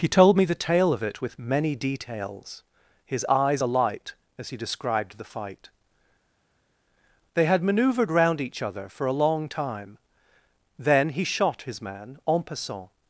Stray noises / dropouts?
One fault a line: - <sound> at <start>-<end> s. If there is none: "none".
none